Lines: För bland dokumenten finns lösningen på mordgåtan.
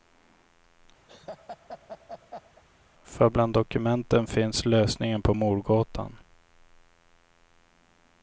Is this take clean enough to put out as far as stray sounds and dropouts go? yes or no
no